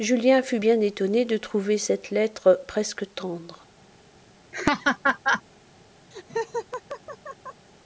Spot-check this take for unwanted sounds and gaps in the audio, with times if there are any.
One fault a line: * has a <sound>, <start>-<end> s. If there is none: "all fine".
* has a laugh, 4.5-5.4 s
* has a laugh, 6.1-7.7 s